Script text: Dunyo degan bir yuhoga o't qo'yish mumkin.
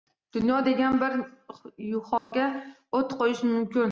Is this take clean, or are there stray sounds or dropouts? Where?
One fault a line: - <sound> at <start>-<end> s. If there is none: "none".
- dropout at 2.2-2.3 s